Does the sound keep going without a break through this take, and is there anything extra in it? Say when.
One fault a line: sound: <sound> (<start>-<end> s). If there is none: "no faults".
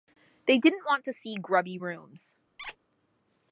sound: squeak (2.6-2.8 s)